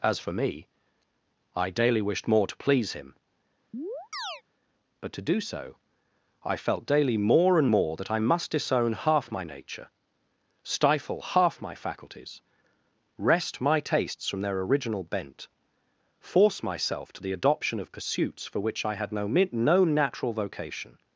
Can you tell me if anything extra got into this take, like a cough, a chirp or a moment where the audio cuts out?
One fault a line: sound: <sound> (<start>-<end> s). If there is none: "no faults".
sound: chirp (3.7-4.4 s)